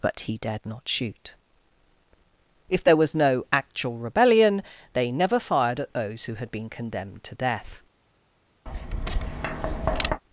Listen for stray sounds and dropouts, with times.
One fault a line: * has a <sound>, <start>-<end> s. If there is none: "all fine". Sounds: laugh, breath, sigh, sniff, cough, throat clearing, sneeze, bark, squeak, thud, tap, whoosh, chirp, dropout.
* has a tap, 8.7-10.2 s